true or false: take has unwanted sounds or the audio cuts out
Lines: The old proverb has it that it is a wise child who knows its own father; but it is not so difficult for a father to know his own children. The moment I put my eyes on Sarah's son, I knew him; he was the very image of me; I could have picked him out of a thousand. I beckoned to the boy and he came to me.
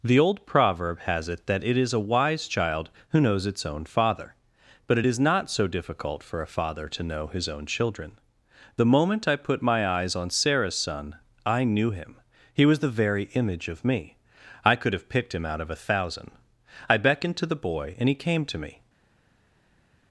false